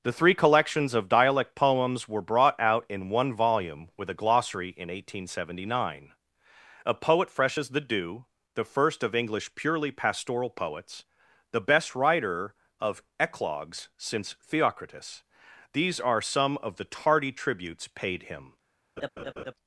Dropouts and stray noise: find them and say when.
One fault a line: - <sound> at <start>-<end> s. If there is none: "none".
- laugh at 19.0-19.5 s